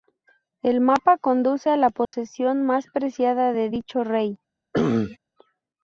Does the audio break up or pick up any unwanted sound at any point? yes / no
yes